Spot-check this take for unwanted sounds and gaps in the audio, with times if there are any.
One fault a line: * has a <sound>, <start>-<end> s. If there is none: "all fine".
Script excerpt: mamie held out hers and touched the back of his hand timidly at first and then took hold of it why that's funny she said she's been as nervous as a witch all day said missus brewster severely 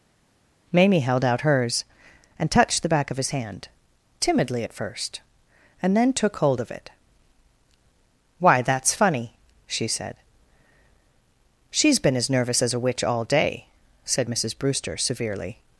all fine